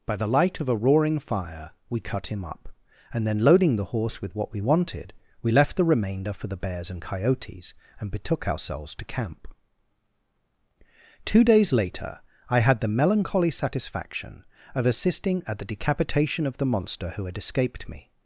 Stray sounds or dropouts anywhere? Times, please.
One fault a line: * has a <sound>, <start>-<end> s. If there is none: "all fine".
all fine